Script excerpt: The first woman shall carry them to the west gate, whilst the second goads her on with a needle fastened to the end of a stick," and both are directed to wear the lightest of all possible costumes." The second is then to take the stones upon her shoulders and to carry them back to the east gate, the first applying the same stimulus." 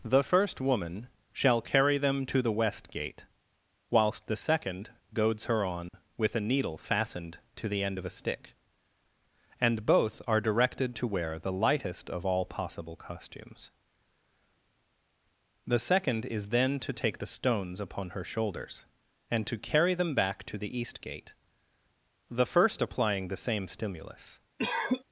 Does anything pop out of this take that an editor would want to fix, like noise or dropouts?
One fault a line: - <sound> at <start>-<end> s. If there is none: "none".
- dropout at 5.9-5.9 s
- cough at 24.6-25.0 s